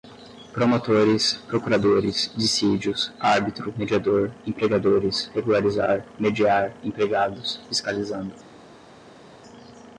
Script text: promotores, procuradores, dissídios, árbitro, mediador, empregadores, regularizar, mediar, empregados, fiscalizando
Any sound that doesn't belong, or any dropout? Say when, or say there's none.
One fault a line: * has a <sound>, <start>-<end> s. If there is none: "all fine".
all fine